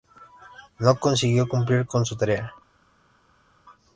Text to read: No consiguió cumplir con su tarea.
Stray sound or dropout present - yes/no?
no